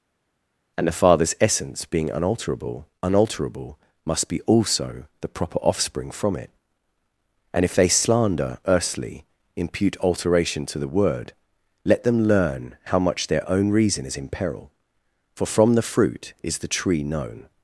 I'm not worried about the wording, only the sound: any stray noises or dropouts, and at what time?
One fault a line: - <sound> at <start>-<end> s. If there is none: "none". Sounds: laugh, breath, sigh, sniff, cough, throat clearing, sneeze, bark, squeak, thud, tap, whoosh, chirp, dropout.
none